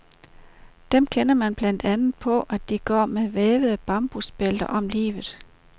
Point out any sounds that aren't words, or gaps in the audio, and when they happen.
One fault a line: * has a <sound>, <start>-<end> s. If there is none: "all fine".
all fine